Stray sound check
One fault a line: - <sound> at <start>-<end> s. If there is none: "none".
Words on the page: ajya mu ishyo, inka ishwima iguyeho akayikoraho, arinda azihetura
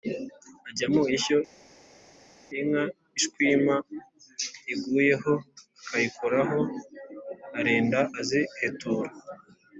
none